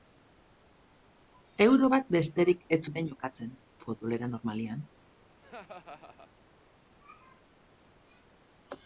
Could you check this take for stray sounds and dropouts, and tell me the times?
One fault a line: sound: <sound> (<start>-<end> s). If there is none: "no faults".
sound: laugh (5.4-6.3 s)